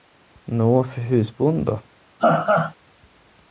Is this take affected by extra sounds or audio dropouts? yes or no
yes